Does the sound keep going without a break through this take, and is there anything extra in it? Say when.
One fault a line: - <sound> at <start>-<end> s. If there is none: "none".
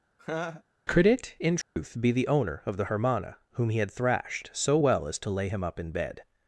- laugh at 0.2-0.6 s
- dropout at 1.6-1.8 s